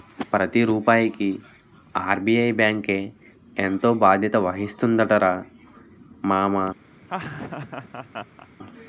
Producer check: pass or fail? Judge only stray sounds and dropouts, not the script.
fail